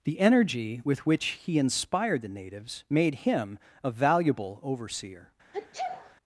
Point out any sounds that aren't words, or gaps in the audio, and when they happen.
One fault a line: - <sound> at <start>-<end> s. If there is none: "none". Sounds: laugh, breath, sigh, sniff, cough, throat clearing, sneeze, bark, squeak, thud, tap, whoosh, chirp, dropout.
- sneeze at 5.5-6.2 s